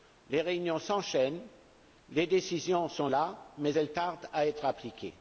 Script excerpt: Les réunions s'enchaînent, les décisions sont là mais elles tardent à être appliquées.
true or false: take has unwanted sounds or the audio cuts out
false